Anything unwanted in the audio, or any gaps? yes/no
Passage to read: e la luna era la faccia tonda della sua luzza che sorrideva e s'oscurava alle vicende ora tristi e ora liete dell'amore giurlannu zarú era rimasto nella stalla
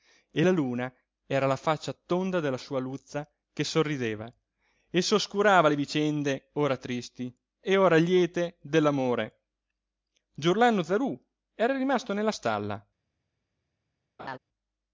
yes